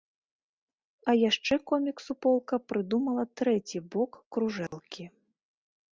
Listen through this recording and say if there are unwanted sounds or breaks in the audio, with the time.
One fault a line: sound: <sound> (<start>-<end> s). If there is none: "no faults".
sound: dropout (4.7-4.7 s)